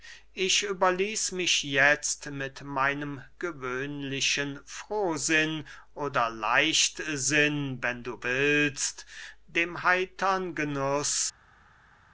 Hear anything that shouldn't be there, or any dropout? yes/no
no